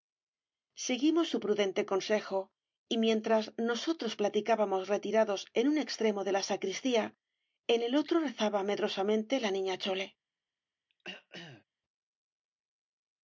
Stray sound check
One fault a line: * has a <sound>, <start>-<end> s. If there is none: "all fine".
* has a throat clearing, 10.9-11.6 s